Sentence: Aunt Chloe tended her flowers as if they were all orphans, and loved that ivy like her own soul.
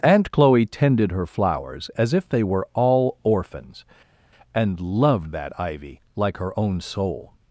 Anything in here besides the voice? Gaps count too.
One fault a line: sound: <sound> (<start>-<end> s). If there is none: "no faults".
no faults